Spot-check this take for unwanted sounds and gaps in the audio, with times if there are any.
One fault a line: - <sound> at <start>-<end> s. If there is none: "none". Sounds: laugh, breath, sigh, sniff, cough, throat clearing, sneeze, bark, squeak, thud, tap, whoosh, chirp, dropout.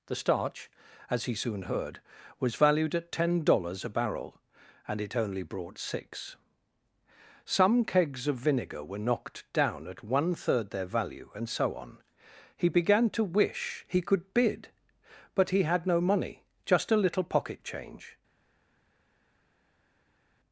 none